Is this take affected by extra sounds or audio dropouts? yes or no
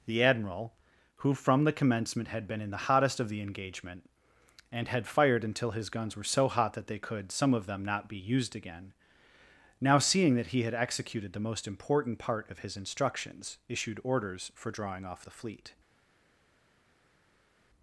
no